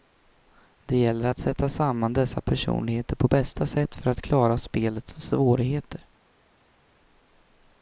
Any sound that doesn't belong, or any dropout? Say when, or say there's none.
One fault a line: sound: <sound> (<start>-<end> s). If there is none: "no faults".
no faults